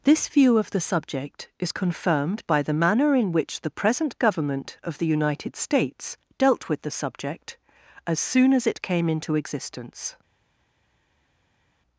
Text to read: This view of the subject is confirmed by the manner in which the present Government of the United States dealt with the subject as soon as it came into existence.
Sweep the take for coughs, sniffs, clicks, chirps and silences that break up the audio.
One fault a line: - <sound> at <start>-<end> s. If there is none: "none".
none